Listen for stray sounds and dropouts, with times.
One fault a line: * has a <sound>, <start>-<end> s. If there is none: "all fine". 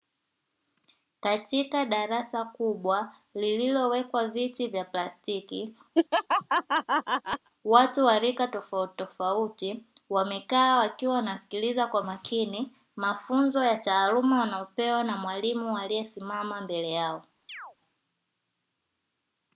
* has a laugh, 5.9-7.5 s
* has a chirp, 17.5-17.8 s